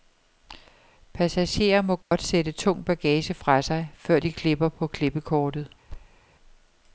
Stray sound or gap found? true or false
true